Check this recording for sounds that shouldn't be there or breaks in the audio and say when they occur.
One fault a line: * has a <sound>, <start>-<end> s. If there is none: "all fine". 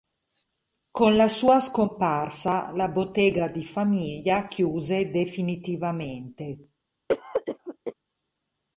* has a cough, 7.1-7.9 s